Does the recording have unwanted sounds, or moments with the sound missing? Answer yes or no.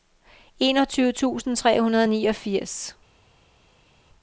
no